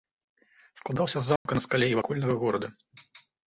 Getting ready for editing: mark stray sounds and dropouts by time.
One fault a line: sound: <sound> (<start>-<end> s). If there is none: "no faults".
sound: dropout (1.4-1.5 s)